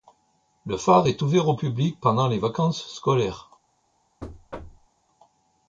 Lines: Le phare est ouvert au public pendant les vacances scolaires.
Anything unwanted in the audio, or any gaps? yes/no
yes